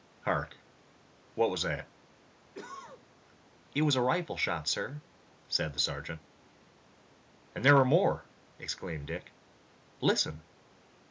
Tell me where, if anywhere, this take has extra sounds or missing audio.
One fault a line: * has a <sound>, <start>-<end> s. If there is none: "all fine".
* has a cough, 2.5-3.1 s